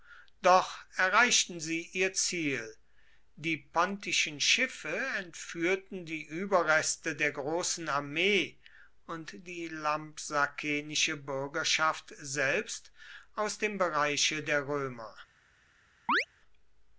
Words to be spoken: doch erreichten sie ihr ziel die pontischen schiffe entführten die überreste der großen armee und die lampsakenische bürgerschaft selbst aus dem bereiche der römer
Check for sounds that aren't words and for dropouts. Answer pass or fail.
fail